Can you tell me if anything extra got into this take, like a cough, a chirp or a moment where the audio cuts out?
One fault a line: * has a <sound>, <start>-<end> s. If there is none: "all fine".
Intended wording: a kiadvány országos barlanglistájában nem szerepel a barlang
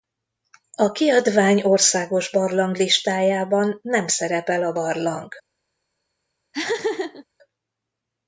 * has a laugh, 6.5-7.2 s